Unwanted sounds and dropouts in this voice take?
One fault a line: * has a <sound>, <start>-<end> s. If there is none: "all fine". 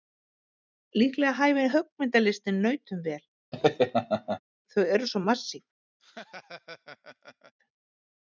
* has a laugh, 3.5-4.4 s
* has a laugh, 6.0-7.5 s